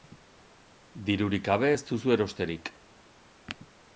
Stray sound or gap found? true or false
false